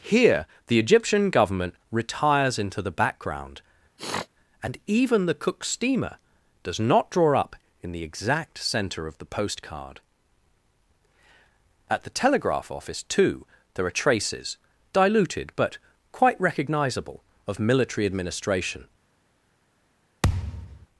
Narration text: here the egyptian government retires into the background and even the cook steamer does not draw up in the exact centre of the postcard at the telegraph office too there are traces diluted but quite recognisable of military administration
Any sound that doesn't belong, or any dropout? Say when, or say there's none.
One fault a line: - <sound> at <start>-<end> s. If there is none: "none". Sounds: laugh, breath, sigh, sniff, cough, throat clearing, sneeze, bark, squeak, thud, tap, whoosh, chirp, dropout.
- sniff at 4.0-4.3 s
- thud at 20.2-20.9 s